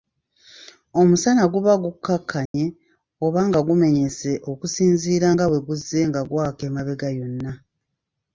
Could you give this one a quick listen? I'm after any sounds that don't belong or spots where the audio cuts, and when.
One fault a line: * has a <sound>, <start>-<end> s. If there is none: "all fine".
* has a dropout, 2.5-2.5 s